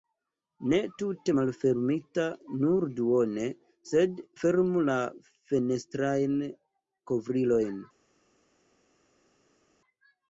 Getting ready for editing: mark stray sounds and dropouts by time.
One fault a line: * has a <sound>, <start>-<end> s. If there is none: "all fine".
all fine